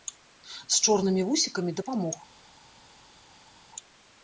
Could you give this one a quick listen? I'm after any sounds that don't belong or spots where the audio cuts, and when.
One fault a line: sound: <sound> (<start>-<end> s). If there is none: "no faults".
no faults